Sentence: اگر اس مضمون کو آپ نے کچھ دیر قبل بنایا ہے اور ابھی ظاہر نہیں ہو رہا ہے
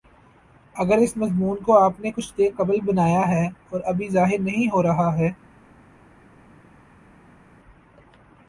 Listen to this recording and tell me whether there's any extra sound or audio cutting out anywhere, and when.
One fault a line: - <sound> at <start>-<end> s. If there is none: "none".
none